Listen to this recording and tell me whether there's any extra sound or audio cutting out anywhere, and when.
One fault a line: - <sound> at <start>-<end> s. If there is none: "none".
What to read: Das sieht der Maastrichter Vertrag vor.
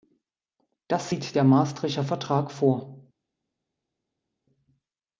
none